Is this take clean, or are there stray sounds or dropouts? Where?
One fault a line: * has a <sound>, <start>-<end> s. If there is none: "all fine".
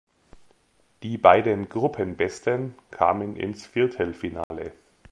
* has a dropout, 4.4-4.5 s